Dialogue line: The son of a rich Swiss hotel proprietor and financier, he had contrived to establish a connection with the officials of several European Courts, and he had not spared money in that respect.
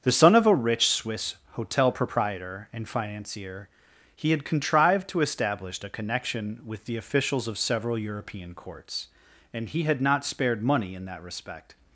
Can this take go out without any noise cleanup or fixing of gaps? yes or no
yes